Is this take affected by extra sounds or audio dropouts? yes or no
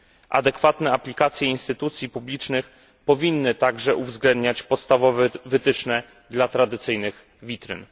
no